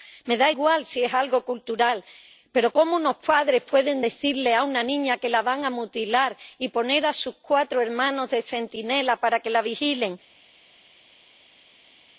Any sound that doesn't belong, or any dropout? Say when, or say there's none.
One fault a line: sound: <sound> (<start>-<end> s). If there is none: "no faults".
no faults